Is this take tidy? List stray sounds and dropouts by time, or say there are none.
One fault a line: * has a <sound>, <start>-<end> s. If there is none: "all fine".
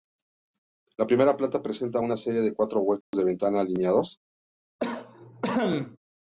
* has a dropout, 3.0-3.1 s
* has a cough, 4.8-6.0 s